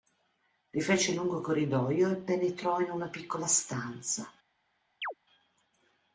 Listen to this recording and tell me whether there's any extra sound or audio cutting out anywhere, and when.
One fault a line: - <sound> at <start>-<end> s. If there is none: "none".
- chirp at 5.0-5.1 s